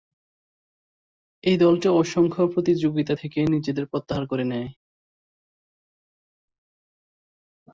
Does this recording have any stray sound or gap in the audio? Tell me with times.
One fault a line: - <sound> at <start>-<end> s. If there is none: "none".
none